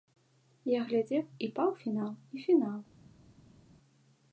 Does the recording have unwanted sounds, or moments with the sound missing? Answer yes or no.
no